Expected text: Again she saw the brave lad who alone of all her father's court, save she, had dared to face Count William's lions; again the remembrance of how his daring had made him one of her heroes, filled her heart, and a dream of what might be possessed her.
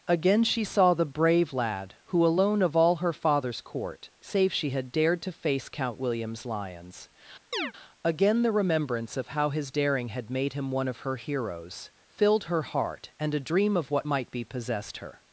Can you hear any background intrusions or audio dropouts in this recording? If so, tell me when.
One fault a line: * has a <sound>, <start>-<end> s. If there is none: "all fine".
* has a chirp, 7.5-7.7 s